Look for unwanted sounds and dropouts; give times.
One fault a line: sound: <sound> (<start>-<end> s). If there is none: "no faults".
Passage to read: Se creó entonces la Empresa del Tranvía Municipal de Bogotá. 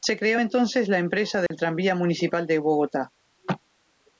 sound: dropout (1.5-1.5 s)